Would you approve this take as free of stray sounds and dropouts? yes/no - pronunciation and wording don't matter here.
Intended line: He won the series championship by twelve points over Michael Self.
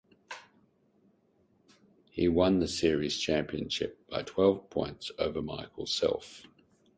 yes